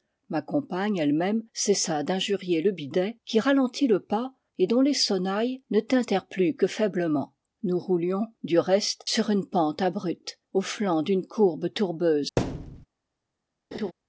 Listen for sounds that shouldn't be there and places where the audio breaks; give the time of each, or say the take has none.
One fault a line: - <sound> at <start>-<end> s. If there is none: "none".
- thud at 12.4-12.9 s
- laugh at 13.7-13.9 s